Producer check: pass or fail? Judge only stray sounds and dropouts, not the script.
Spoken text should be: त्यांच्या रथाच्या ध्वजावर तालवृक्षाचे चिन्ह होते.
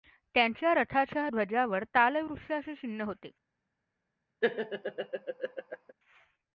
fail